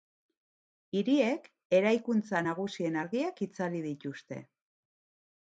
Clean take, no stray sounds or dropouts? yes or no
yes